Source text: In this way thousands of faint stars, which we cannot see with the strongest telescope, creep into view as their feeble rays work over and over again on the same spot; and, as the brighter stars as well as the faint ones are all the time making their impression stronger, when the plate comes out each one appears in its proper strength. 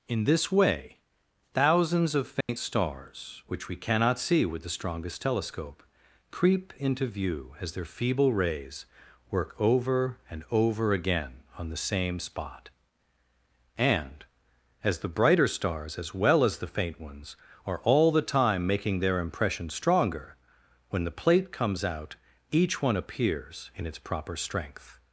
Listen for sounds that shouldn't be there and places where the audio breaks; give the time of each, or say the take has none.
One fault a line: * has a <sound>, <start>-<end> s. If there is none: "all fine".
* has a dropout, 2.4-2.5 s